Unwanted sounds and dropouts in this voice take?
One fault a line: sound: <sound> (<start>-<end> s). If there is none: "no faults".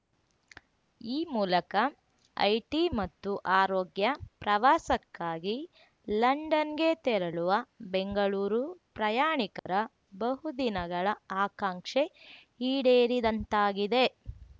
sound: dropout (9.6-9.7 s)